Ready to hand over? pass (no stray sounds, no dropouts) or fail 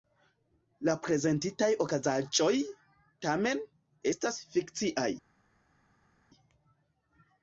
pass